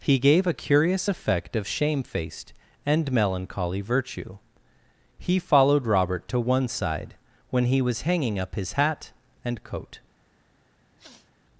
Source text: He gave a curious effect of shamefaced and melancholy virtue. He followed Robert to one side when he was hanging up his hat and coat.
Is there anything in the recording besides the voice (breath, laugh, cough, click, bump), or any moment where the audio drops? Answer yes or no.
yes